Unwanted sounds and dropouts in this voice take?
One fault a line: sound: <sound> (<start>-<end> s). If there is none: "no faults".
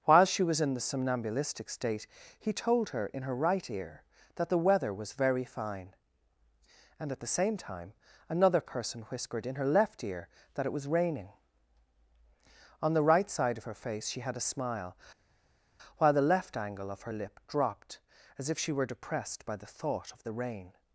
no faults